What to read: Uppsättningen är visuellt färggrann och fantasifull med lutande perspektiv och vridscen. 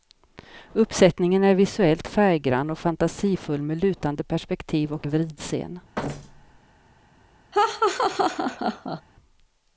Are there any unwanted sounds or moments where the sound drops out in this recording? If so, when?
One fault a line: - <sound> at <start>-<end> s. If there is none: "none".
- thud at 6.0-6.6 s
- laugh at 7.5-9.0 s